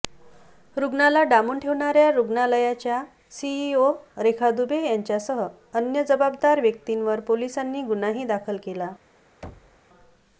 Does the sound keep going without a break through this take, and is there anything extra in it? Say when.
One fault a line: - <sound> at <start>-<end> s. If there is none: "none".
- thud at 9.4-9.8 s